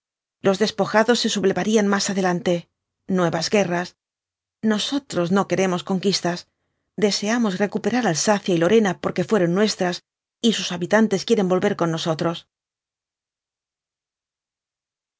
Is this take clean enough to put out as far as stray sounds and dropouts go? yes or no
yes